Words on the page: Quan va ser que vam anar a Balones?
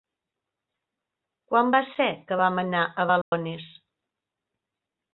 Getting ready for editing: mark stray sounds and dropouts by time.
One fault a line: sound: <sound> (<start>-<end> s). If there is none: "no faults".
sound: dropout (3.2-3.3 s)